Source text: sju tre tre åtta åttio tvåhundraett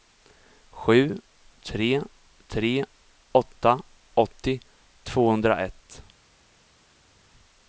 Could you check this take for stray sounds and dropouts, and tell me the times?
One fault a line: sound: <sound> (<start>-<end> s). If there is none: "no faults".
no faults